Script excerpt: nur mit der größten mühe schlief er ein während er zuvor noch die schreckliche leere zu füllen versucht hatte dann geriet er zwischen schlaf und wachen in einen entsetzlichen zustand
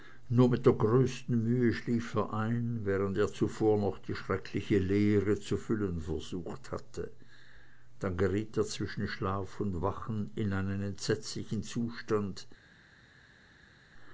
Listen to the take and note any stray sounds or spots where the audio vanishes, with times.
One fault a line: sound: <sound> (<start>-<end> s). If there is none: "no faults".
no faults